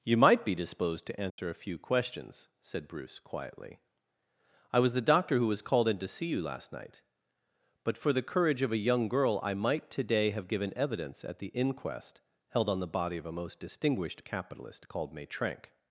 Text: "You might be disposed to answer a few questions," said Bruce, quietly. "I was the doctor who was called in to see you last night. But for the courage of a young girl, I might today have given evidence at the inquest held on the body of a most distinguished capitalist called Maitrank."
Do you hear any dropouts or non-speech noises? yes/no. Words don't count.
yes